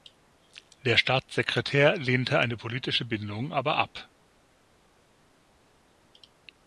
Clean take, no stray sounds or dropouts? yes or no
yes